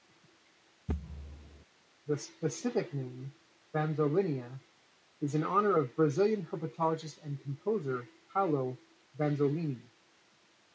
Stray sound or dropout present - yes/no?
yes